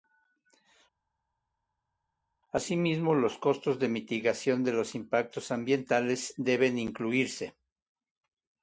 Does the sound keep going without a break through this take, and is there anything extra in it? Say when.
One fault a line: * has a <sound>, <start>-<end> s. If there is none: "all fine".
all fine